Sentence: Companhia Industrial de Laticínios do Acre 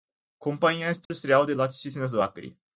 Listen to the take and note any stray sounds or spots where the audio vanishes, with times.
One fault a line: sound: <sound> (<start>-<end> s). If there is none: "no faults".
sound: dropout (1.0-1.1 s)